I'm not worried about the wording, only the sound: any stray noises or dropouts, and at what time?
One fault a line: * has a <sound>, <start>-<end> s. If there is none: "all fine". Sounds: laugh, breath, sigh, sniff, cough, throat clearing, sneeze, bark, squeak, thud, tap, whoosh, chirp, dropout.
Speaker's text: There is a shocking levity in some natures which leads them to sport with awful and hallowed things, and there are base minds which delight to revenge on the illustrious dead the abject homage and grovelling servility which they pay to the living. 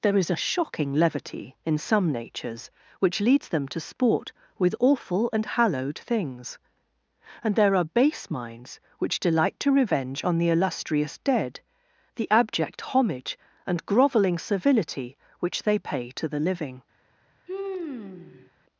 * has a sigh, 17.5-18.5 s